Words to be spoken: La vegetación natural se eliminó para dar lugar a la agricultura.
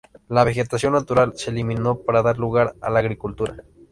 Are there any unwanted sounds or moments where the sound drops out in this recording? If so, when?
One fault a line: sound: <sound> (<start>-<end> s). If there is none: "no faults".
no faults